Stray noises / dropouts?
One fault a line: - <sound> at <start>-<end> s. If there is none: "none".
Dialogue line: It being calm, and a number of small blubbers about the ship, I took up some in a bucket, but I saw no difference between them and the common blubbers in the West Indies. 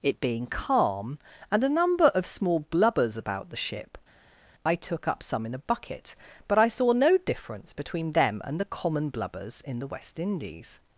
none